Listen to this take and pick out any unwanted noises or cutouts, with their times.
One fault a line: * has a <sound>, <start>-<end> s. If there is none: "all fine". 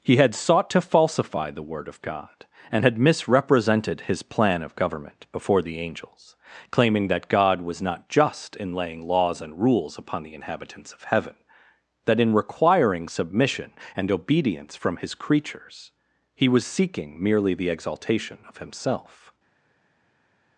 all fine